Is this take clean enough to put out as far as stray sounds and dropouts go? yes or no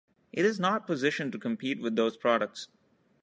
yes